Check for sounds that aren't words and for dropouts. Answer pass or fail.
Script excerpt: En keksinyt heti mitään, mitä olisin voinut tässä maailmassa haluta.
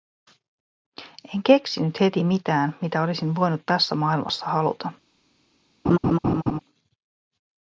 fail